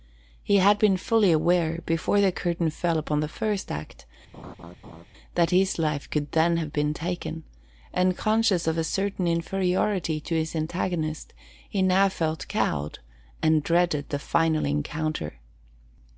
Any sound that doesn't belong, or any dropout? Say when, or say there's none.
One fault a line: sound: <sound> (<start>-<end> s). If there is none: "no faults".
sound: laugh (4.3-5.1 s)